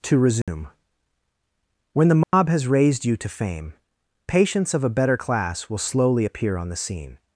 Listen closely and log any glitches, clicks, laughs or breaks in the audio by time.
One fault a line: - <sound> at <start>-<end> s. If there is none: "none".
- dropout at 0.4-0.5 s
- dropout at 2.2-2.3 s